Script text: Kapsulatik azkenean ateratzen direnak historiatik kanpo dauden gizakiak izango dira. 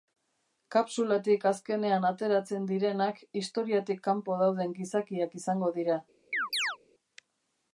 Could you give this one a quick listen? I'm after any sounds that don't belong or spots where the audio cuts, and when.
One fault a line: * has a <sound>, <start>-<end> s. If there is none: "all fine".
* has a chirp, 6.3-6.8 s